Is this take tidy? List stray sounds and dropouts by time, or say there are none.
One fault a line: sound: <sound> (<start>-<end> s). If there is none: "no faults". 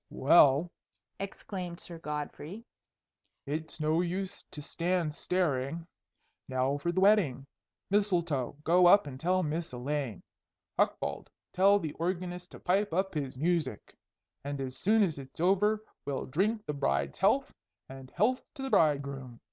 no faults